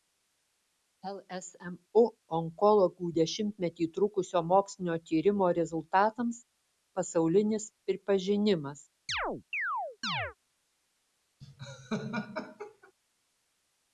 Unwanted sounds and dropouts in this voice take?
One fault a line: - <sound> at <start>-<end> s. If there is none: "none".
- chirp at 9.1-10.4 s
- laugh at 11.4-12.9 s